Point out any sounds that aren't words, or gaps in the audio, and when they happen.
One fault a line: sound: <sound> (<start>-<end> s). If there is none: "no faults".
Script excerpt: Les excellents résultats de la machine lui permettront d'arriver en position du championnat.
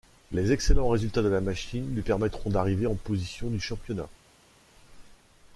no faults